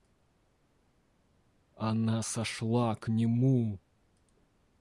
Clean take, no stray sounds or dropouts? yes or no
yes